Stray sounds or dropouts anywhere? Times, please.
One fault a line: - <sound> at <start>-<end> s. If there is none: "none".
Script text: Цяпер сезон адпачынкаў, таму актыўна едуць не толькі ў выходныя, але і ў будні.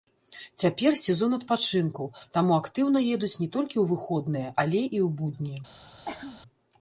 - cough at 6.1-6.4 s